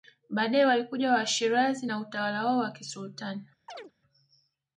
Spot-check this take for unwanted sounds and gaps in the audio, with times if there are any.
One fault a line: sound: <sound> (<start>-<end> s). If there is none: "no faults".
sound: chirp (3.7-3.9 s)